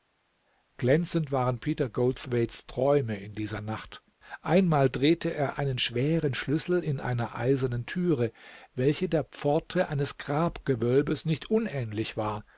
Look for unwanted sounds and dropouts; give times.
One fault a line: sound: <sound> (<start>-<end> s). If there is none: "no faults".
no faults